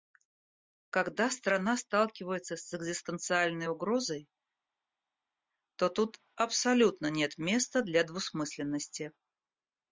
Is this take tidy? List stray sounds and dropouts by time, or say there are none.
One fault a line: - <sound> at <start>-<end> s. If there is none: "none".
none